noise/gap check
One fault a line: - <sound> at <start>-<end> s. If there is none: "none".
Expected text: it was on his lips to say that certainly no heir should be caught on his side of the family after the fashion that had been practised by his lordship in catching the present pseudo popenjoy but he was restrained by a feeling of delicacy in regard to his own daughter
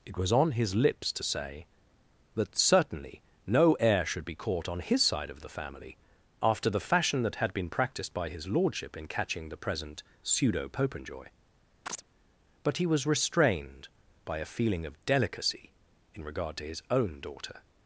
- chirp at 11.9-12.0 s